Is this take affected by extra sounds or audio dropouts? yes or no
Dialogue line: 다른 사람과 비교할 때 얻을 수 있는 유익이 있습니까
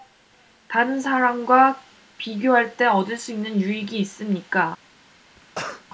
yes